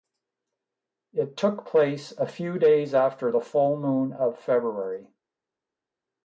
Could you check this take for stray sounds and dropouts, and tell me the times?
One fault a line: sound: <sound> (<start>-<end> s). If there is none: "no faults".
no faults